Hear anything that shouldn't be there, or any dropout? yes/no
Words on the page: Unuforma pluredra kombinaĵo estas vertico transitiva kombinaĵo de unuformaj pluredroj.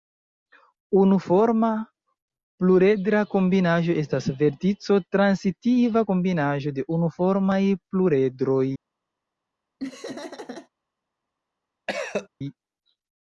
yes